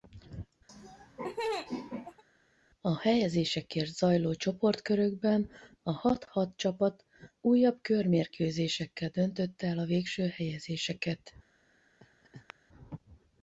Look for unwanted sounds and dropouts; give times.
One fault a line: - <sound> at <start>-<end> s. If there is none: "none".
- laugh at 0.7-2.2 s
- laugh at 12.0-12.5 s